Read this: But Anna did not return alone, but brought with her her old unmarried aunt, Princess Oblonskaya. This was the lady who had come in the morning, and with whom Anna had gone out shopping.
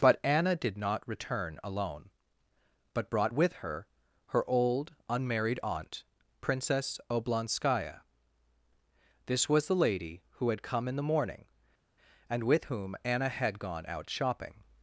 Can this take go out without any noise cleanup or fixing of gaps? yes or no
yes